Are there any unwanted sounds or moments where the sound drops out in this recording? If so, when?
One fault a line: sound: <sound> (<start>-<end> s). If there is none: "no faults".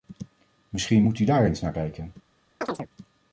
sound: chirp (2.6-2.9 s)